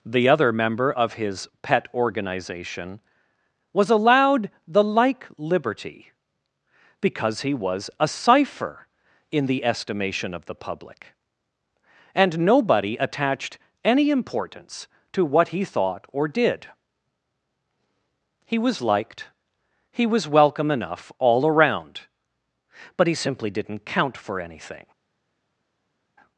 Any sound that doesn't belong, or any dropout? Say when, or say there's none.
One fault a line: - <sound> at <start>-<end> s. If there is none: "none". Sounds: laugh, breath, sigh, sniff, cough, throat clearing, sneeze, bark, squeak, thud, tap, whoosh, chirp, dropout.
none